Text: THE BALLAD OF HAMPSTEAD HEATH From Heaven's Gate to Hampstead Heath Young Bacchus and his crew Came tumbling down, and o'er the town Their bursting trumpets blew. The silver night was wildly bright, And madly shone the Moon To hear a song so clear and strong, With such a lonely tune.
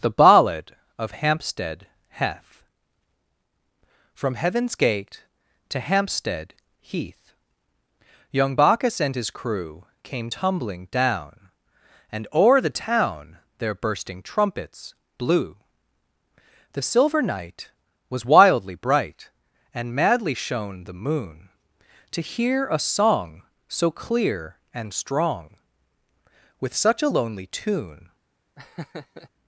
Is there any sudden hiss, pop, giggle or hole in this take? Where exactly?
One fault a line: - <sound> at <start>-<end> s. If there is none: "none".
- laugh at 28.6-29.3 s